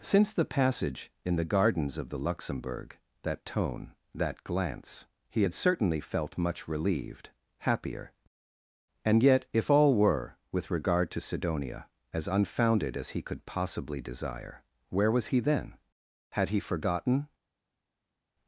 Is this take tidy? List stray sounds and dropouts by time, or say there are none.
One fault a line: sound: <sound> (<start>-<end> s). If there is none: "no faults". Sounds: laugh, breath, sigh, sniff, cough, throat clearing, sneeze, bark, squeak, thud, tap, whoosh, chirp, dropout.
no faults